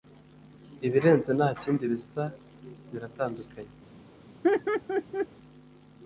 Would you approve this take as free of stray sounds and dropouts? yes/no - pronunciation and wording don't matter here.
no